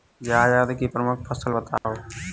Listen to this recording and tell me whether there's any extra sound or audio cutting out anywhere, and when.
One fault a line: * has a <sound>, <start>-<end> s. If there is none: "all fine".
* has a dropout, 1.8-1.8 s